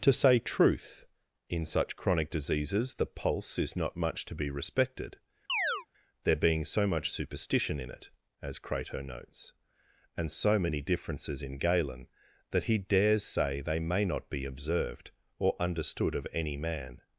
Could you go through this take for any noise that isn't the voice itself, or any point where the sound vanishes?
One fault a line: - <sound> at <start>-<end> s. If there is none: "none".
- chirp at 5.5-5.9 s